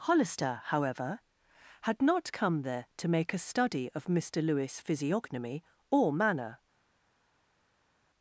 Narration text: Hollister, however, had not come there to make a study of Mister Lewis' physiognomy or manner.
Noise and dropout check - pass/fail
pass